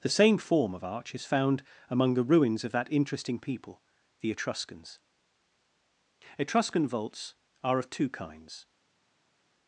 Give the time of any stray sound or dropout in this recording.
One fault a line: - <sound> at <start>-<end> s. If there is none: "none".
none